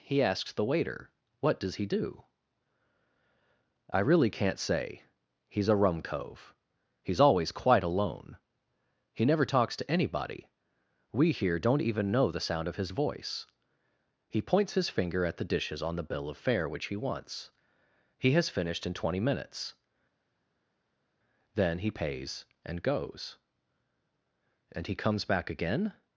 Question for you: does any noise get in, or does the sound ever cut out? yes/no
no